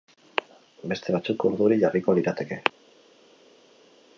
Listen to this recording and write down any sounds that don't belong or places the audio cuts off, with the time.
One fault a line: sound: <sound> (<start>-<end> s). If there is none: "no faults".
no faults